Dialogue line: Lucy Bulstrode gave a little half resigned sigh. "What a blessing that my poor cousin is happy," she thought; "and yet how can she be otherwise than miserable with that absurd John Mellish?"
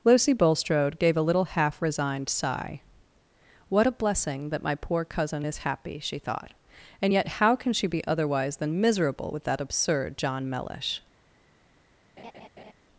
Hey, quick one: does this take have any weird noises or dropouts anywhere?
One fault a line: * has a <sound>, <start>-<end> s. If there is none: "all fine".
* has a laugh, 12.2-12.7 s